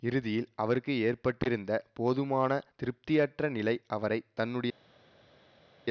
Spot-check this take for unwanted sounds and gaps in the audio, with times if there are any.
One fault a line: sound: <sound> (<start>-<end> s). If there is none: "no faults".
no faults